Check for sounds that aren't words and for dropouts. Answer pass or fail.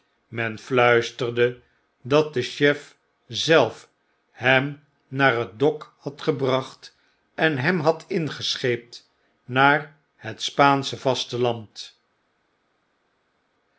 pass